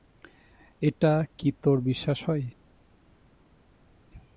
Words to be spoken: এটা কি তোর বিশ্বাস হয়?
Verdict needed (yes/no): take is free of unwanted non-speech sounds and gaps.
yes